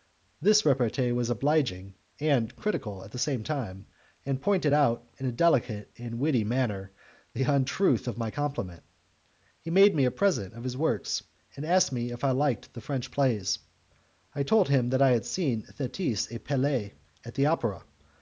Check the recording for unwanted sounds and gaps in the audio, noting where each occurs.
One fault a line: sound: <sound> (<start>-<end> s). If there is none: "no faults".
no faults